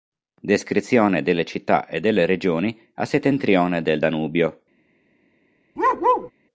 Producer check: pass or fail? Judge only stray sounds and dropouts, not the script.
fail